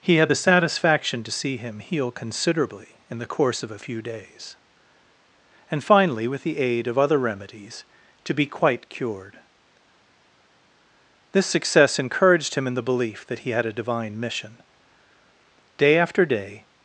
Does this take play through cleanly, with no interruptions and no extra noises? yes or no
yes